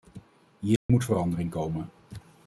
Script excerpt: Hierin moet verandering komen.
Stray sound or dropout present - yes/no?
yes